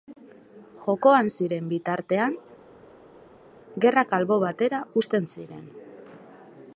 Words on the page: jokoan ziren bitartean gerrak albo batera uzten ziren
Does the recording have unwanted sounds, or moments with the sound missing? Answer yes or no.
no